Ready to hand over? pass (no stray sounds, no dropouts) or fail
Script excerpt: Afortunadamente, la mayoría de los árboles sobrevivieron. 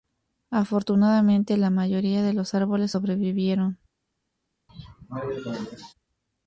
fail